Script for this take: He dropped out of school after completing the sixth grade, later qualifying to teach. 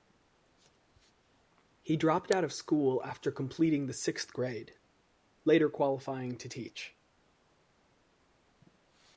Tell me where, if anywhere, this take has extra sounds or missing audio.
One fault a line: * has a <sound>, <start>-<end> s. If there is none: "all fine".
all fine